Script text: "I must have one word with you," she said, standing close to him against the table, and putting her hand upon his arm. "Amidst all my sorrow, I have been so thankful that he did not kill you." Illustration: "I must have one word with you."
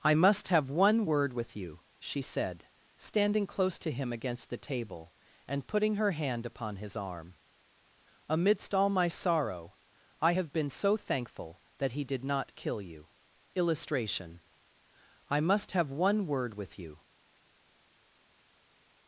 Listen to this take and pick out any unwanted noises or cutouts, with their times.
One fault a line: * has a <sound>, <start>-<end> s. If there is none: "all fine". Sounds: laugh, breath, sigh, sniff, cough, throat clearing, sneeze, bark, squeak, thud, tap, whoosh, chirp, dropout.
all fine